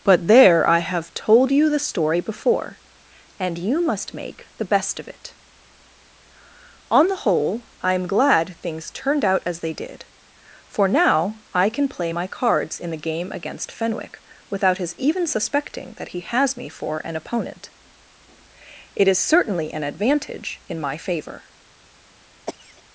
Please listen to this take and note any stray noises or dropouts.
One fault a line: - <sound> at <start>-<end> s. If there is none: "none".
- cough at 22.5-22.8 s